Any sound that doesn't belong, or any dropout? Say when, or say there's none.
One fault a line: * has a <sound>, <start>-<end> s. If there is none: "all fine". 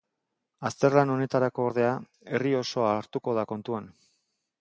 all fine